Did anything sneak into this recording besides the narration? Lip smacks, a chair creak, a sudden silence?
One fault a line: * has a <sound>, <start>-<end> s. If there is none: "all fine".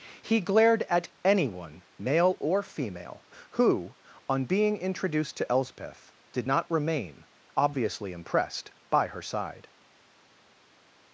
all fine